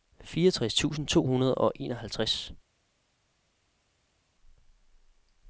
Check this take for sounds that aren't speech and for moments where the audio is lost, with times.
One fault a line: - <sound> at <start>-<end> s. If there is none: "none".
none